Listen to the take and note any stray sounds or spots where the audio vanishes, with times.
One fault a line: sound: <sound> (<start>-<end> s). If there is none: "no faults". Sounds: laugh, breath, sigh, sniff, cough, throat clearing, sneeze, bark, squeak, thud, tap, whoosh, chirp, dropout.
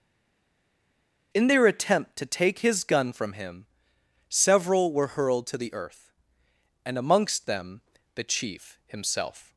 no faults